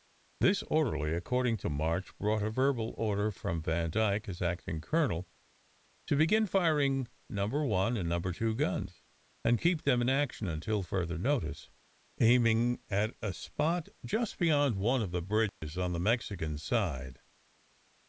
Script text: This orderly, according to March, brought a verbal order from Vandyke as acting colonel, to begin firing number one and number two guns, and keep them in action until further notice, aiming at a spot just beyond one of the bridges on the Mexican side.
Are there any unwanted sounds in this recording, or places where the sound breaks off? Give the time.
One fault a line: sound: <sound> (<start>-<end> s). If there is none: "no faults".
sound: dropout (15.5-15.6 s)